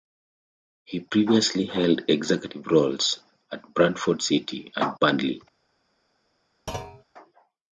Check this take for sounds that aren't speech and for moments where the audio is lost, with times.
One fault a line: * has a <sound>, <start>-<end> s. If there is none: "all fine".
* has a thud, 6.7-7.0 s